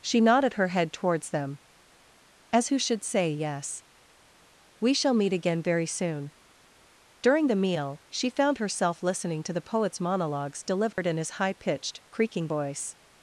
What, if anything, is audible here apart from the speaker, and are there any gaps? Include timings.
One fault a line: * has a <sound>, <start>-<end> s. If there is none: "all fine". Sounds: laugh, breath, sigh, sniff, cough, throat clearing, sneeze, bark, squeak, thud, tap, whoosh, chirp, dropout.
* has a dropout, 10.9-11.0 s